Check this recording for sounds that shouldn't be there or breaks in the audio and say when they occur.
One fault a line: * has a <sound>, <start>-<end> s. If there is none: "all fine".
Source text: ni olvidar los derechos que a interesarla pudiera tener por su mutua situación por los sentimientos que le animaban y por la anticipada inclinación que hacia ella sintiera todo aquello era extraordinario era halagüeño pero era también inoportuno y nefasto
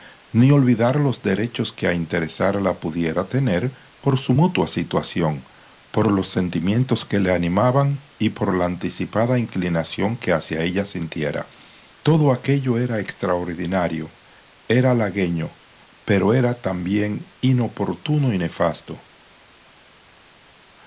all fine